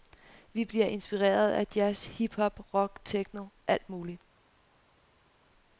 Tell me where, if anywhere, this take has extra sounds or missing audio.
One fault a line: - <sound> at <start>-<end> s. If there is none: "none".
none